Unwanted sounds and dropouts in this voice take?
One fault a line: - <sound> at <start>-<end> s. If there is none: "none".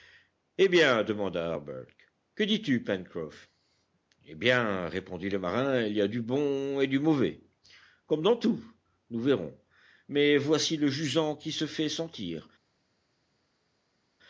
none